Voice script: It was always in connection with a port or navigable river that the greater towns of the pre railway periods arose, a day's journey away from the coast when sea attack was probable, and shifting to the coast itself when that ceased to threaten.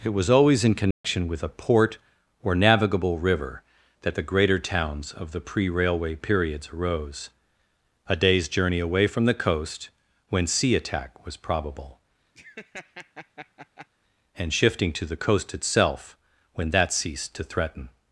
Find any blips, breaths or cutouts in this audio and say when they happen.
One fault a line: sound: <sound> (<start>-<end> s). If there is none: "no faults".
sound: dropout (0.9-1.0 s)
sound: laugh (12.4-13.9 s)